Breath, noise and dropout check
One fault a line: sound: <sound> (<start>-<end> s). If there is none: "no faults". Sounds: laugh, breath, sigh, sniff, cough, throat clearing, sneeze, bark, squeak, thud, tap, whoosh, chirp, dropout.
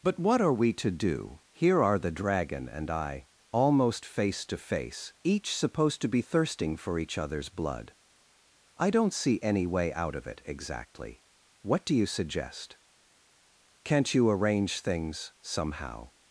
no faults